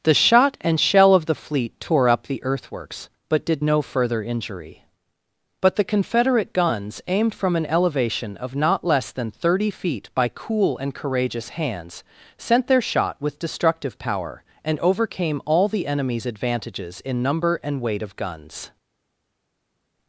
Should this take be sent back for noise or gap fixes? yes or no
no